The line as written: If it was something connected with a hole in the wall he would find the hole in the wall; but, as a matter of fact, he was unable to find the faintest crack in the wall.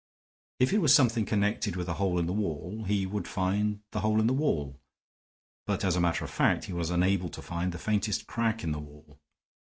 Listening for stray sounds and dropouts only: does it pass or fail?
pass